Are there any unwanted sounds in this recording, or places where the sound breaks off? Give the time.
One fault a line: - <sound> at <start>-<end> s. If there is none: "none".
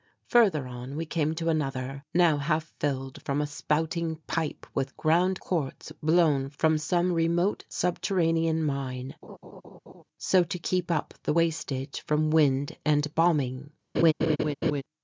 - laugh at 9.2-10.0 s
- laugh at 13.9-14.8 s